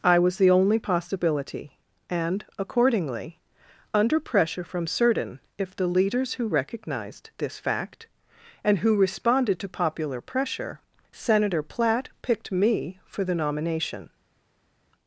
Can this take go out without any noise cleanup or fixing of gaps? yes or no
yes